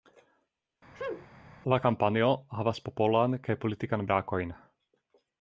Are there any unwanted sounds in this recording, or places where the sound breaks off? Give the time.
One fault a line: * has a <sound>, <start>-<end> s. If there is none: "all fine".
* has a sneeze, 0.9-1.3 s